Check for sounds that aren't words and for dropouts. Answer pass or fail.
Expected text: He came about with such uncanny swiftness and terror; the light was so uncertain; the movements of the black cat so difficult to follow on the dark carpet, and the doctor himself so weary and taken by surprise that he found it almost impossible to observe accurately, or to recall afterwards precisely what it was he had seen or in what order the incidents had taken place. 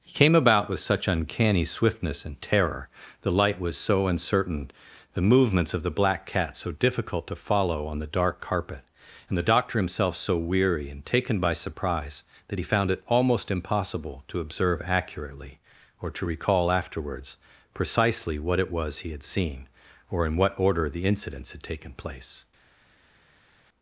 pass